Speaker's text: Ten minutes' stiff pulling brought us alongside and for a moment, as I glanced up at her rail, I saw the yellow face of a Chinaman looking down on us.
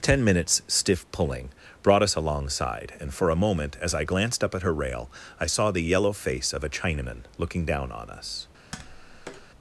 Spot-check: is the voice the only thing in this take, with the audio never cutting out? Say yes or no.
no